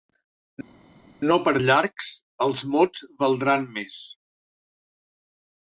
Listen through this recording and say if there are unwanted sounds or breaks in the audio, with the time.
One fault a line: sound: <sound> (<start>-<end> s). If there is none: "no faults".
no faults